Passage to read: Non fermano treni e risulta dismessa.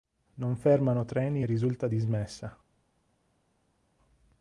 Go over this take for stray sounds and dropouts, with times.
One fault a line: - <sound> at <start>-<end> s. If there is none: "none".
none